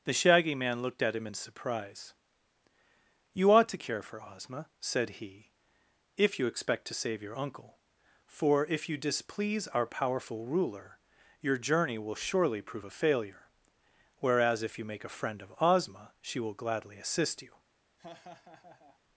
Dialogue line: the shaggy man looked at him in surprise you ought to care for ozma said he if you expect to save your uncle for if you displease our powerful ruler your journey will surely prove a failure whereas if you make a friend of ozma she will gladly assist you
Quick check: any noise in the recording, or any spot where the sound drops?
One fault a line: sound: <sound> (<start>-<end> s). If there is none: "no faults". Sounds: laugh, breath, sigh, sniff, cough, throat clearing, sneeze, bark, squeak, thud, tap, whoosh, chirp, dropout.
sound: laugh (18.0-19.0 s)